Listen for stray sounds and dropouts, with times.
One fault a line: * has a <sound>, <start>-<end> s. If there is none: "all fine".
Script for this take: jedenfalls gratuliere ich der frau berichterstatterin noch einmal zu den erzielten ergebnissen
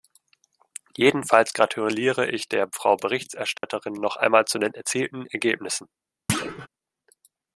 * has a dropout, 3.6-3.6 s
* has a thud, 6.3-6.7 s